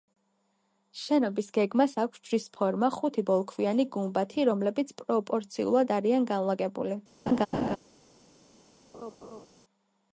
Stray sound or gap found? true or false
true